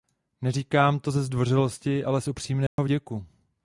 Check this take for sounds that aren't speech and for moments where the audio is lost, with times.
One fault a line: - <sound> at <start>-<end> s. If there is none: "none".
- dropout at 2.7-2.8 s